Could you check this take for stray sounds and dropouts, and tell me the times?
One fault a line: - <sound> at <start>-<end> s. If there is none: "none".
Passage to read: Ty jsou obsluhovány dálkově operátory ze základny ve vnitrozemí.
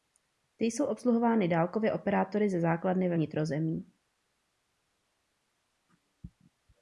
none